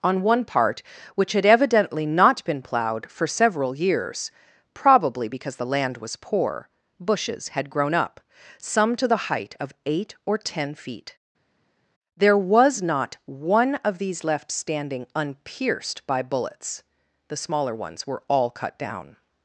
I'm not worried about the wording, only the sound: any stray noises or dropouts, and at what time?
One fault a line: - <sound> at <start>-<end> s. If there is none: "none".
none